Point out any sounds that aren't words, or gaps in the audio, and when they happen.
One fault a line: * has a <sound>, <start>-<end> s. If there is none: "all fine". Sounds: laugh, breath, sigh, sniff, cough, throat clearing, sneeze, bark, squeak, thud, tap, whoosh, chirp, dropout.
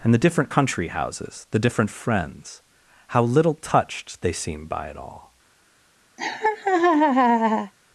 * has a laugh, 6.2-7.7 s